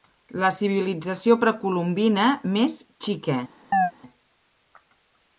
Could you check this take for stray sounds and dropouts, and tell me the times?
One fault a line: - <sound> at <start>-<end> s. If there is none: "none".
- chirp at 3.7-3.9 s